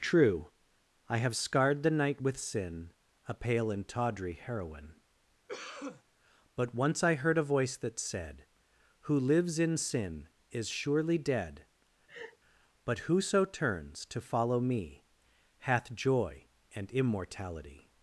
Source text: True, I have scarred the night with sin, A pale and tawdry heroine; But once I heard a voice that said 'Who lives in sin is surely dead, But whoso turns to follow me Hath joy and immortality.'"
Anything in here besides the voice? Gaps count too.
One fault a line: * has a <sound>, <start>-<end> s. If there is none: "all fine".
* has a cough, 5.5-6.0 s
* has a laugh, 12.1-12.4 s